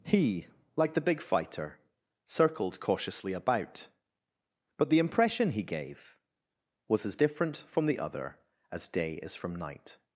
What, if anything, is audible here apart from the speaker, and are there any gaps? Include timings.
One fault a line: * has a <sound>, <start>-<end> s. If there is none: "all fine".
all fine